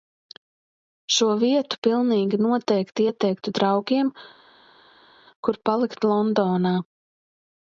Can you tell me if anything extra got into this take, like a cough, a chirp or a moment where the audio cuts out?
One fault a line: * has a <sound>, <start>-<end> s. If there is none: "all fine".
all fine